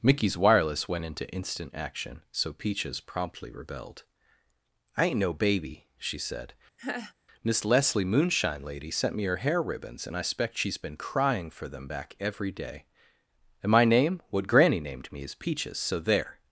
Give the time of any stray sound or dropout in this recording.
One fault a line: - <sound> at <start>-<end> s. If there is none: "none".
- laugh at 6.8-7.1 s